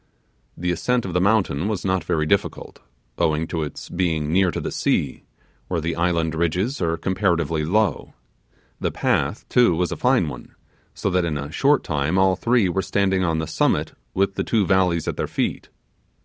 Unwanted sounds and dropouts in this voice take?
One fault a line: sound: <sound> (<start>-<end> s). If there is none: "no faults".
no faults